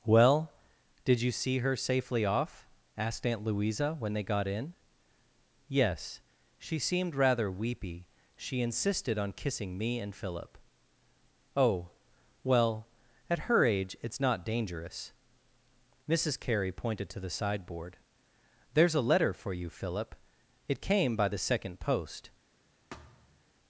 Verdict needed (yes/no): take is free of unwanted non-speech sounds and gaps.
no